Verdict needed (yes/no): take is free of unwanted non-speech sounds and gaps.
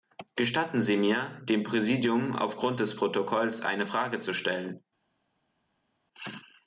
yes